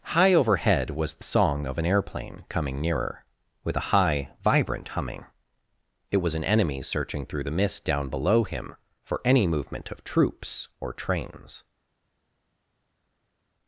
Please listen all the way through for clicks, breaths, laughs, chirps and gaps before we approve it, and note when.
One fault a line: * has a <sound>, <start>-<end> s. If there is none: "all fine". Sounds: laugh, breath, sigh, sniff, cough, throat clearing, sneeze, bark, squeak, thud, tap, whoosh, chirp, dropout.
all fine